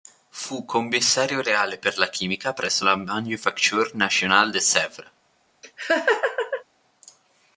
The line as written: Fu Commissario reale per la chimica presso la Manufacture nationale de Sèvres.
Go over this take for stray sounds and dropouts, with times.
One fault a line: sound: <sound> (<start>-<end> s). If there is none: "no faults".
sound: laugh (5.6-6.6 s)